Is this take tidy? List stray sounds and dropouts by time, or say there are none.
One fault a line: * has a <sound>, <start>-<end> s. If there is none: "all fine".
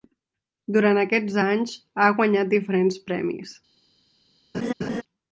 * has a laugh, 4.5-5.0 s